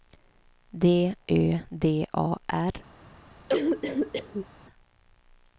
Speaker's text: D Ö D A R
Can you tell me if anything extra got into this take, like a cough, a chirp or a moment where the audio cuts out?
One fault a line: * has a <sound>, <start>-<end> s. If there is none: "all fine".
* has a cough, 3.5-4.5 s